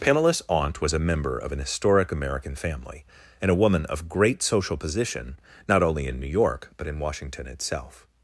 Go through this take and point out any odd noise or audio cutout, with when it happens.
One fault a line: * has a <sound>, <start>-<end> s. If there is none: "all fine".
all fine